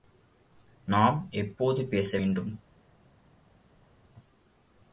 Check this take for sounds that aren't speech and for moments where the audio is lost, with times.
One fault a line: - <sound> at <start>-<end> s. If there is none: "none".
none